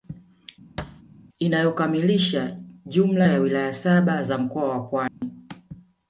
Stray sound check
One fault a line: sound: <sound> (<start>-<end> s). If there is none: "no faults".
sound: thud (0.8-1.0 s)
sound: dropout (5.1-5.2 s)